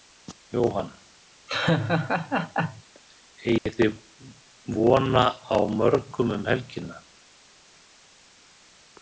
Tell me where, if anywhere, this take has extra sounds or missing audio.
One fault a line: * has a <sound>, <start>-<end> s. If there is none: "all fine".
* has a laugh, 1.5-2.8 s
* has a dropout, 3.6-3.7 s